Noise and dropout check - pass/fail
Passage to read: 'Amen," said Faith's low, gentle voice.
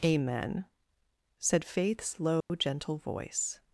fail